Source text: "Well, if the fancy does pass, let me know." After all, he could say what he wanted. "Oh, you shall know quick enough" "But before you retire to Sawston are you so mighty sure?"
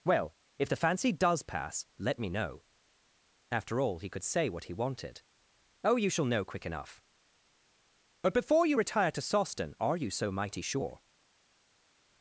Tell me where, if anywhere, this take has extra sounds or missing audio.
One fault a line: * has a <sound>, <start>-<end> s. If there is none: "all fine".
all fine